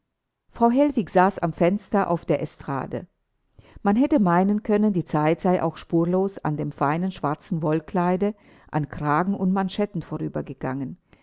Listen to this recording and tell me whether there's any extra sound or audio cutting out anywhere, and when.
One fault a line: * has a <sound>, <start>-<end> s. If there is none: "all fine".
all fine